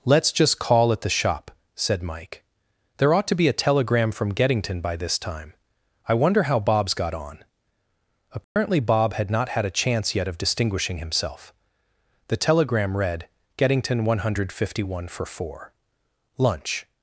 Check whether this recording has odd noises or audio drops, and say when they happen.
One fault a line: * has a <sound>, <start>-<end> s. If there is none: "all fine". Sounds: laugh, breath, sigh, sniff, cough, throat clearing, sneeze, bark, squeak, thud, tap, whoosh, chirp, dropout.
* has a dropout, 8.4-8.6 s